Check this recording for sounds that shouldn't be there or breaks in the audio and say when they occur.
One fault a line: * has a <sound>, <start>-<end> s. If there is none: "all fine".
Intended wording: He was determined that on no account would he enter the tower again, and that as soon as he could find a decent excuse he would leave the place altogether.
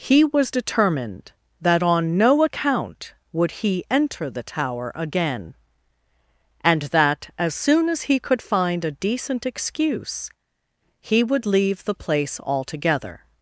all fine